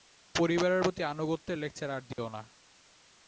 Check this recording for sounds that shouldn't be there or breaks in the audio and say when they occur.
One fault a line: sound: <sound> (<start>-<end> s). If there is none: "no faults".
sound: dropout (2.1-2.2 s)